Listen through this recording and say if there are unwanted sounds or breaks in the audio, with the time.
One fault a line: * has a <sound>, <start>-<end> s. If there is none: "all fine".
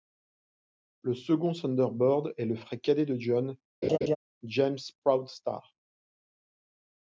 * has a laugh, 3.8-4.2 s